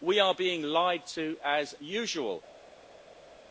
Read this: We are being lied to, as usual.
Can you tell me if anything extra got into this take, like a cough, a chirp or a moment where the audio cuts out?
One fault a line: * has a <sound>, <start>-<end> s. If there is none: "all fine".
all fine